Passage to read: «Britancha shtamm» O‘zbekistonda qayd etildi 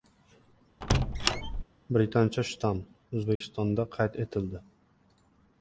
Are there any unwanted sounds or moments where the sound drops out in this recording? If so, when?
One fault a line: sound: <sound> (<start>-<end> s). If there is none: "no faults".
sound: squeak (0.8-1.6 s)
sound: dropout (3.4-3.4 s)